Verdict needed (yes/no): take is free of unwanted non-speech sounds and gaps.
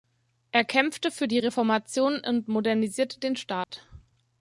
no